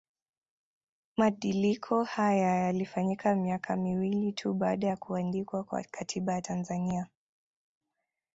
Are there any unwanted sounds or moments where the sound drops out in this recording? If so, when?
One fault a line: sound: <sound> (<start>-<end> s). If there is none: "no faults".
no faults